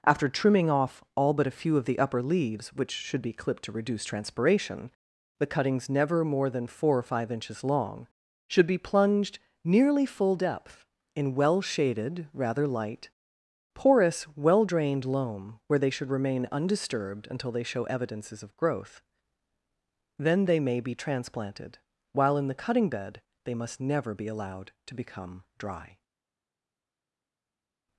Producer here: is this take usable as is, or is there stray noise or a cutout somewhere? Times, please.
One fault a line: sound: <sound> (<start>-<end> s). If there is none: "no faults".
no faults